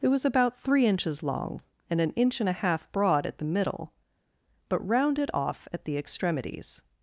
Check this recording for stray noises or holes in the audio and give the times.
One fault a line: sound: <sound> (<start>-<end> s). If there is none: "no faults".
no faults